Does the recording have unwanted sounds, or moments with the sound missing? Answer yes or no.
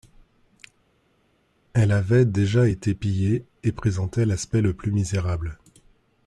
no